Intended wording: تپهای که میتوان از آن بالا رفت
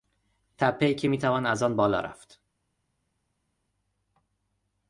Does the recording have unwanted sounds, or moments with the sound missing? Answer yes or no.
no